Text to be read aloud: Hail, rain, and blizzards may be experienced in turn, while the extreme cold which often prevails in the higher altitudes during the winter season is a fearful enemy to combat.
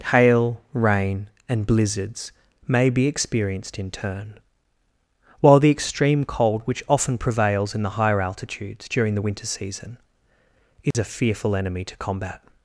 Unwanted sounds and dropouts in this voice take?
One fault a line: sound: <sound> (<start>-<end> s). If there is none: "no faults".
sound: dropout (10.9-10.9 s)